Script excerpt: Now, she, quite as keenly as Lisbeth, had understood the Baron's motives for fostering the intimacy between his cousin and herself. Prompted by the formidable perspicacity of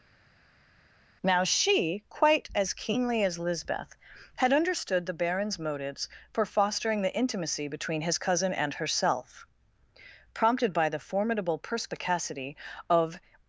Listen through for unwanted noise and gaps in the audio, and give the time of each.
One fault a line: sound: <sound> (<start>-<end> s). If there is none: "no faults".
no faults